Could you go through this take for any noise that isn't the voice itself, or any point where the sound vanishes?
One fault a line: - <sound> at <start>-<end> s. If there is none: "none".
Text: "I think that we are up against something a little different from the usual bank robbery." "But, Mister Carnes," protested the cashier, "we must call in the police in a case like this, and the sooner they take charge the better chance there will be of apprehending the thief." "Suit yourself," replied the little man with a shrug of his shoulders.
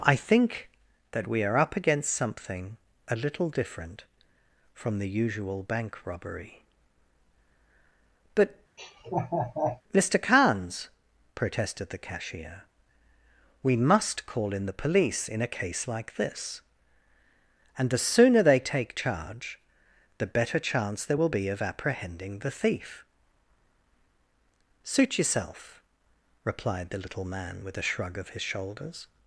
- laugh at 8.8-9.8 s